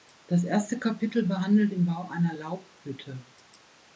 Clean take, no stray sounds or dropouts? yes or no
yes